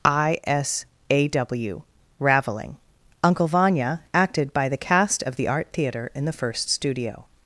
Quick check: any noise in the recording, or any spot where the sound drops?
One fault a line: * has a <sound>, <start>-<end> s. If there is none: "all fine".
all fine